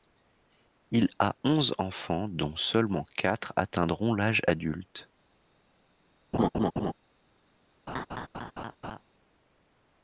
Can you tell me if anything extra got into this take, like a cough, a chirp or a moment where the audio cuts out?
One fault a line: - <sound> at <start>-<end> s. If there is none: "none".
- laugh at 6.3-6.9 s
- laugh at 7.9-9.0 s